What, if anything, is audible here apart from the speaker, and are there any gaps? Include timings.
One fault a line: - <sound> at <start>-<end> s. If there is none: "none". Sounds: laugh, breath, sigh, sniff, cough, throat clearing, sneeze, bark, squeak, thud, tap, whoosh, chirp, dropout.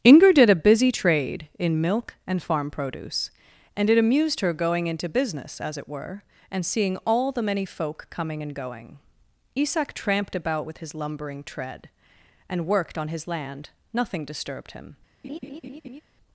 - laugh at 15.2-16.0 s